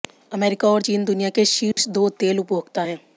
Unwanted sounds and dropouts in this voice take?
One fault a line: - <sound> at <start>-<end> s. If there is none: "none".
- dropout at 1.7-1.8 s